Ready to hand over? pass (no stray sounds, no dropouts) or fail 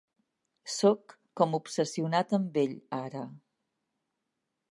pass